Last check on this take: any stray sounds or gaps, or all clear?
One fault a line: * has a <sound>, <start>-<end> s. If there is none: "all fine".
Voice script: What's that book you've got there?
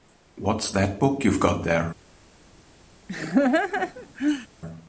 * has a laugh, 3.1-4.5 s